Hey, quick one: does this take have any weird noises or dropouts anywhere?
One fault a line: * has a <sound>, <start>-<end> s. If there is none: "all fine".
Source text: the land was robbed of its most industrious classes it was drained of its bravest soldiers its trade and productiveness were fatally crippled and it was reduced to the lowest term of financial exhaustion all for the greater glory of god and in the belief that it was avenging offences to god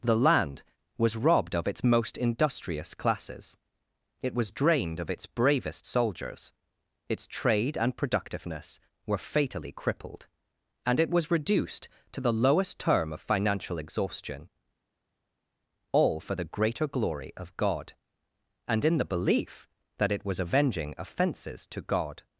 all fine